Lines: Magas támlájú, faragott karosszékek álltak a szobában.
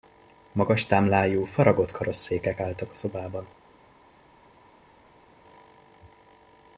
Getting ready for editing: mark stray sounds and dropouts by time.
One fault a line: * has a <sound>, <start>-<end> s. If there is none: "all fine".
all fine